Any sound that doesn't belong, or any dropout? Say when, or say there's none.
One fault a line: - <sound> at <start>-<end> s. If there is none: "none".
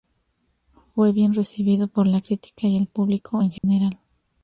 - dropout at 3.6-3.6 s